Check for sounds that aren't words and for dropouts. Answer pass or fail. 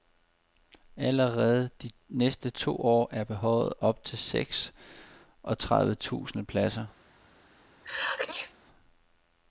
fail